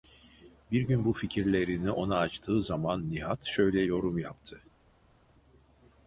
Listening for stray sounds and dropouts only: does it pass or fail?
pass